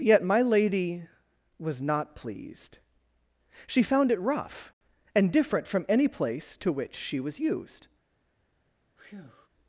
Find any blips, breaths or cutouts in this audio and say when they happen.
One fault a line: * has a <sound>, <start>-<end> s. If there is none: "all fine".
* has a breath, 9.0-9.5 s